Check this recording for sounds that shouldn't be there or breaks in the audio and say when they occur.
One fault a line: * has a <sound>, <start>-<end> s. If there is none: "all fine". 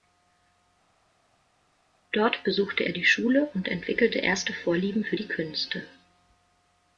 all fine